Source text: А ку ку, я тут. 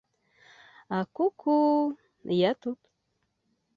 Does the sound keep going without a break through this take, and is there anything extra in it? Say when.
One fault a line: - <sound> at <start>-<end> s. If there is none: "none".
none